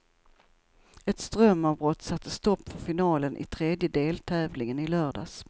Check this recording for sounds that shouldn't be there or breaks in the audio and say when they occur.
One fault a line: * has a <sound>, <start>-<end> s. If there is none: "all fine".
all fine